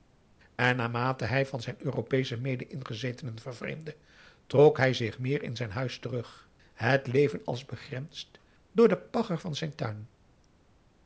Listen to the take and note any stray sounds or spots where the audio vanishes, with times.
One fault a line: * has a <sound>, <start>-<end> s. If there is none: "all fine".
all fine